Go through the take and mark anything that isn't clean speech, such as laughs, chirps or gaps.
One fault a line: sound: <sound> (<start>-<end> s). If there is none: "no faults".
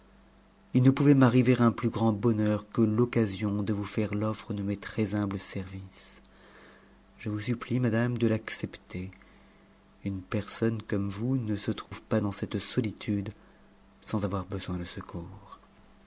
sound: dropout (11.9-11.9 s)